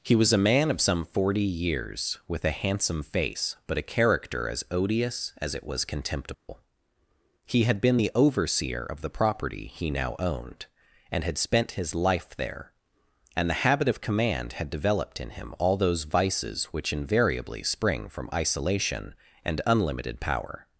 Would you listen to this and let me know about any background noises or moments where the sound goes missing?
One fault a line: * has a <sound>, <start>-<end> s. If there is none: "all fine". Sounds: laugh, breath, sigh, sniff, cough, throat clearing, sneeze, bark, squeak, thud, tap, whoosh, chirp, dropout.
* has a dropout, 6.3-6.5 s